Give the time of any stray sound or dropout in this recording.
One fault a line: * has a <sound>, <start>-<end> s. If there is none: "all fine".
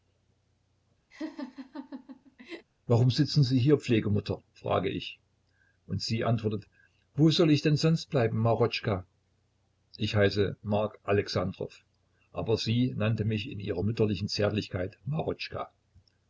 * has a laugh, 1.1-2.7 s